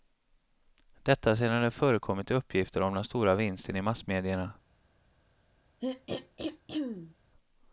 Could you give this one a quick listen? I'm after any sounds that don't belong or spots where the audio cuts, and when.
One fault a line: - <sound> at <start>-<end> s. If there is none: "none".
- throat clearing at 5.8-7.2 s